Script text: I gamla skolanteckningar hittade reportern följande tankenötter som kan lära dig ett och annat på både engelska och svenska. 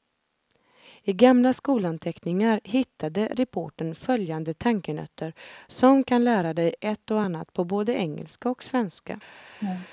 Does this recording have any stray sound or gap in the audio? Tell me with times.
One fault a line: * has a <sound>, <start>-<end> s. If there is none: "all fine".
* has a laugh, 9.6-9.9 s